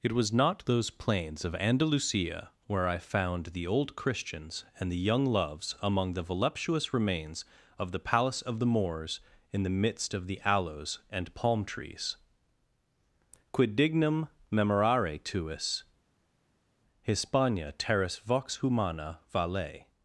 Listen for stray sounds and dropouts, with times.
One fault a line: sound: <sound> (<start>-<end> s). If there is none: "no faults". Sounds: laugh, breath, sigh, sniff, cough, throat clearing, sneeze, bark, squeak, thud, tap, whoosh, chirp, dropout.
no faults